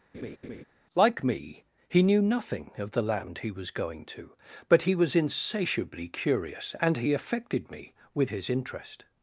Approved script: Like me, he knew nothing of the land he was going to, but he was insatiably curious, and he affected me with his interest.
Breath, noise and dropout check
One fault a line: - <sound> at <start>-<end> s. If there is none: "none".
- laugh at 0.1-0.6 s